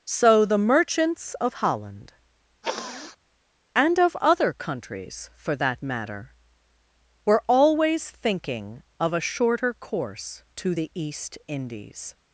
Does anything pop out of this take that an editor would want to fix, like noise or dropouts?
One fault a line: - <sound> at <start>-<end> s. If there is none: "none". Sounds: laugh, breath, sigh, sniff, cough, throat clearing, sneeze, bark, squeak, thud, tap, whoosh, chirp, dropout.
- sniff at 2.6-3.2 s